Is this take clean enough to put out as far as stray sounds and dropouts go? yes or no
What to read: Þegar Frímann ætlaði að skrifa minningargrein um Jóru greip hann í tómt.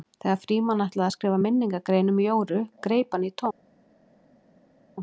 yes